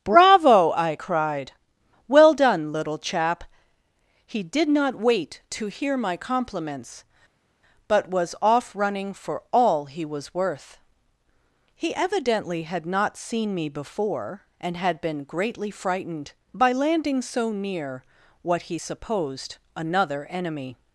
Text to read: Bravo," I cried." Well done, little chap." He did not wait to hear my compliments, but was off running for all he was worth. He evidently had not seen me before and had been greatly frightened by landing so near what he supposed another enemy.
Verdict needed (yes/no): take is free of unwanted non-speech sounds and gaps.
yes